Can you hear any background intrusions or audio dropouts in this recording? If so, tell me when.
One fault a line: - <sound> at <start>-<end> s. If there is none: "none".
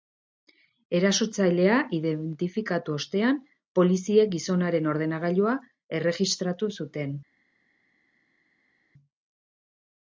none